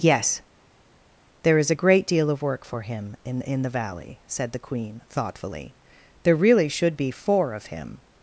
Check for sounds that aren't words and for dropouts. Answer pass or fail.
pass